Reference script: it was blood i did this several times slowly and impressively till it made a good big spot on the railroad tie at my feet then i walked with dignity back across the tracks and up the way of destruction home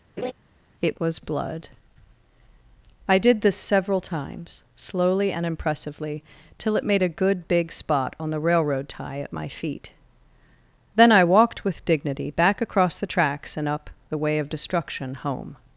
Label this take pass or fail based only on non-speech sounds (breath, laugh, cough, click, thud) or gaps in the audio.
fail